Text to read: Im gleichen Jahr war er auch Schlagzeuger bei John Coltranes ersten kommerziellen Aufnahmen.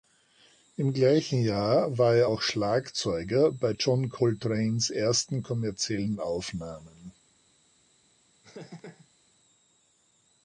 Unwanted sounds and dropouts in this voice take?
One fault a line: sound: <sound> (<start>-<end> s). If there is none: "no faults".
sound: laugh (8.4-9.1 s)